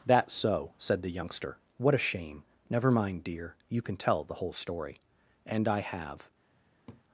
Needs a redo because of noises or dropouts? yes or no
yes